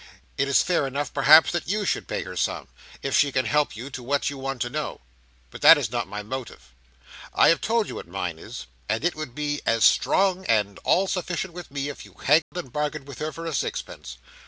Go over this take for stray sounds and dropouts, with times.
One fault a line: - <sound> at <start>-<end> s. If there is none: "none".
- dropout at 12.4-12.5 s